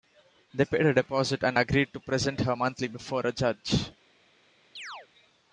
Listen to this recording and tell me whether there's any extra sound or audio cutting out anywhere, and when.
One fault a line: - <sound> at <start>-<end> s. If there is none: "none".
- chirp at 4.8-5.1 s